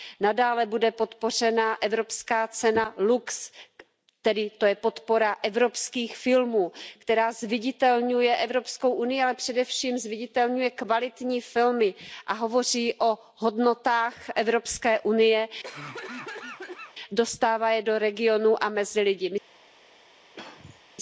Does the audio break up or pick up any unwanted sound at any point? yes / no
yes